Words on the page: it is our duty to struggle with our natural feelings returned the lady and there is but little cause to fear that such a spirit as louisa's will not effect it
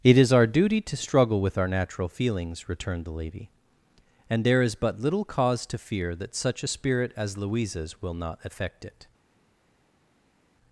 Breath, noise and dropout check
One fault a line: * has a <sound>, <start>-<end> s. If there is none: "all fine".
all fine